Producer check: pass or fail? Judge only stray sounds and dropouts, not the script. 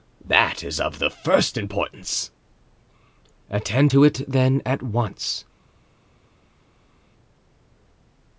pass